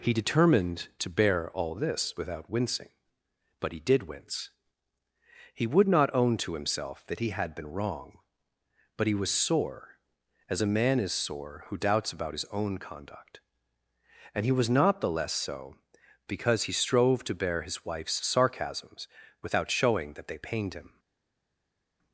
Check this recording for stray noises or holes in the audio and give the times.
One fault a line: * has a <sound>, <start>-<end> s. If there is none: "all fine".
all fine